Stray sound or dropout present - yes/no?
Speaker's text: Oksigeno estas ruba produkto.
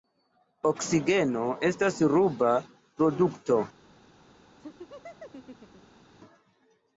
yes